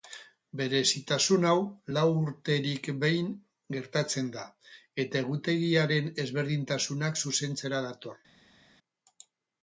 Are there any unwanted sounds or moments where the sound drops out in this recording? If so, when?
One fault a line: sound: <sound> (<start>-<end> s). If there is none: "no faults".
no faults